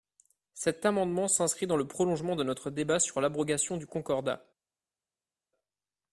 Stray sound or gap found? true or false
false